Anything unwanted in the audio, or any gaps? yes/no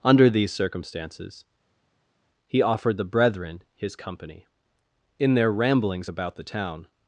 no